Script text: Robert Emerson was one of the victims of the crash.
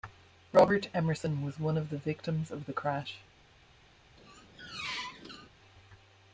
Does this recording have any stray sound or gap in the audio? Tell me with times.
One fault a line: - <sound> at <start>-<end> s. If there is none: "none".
- squeak at 4.2-5.5 s